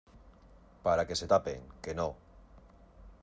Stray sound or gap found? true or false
false